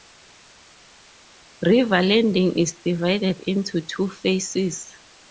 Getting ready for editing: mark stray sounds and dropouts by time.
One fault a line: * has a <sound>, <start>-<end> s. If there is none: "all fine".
all fine